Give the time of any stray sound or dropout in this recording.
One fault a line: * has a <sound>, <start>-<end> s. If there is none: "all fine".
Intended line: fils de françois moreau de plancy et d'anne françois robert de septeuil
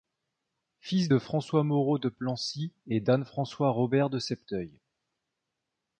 all fine